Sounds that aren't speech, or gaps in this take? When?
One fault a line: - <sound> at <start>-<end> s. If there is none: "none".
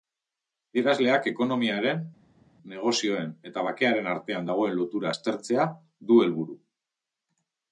none